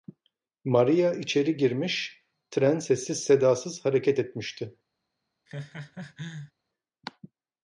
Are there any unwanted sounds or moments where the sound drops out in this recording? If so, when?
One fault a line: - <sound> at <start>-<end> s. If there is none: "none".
- laugh at 5.5-6.5 s